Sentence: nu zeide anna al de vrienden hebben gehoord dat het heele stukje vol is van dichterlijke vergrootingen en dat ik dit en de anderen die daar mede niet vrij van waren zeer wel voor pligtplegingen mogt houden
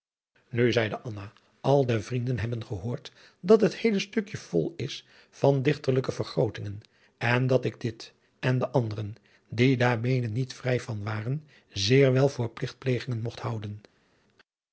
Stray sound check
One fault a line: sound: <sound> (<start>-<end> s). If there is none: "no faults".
no faults